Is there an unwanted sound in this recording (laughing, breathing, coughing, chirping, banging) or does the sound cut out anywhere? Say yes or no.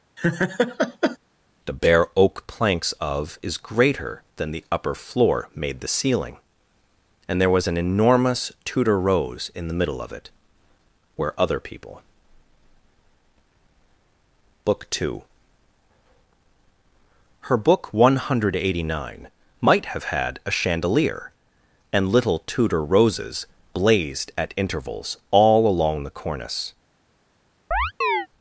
yes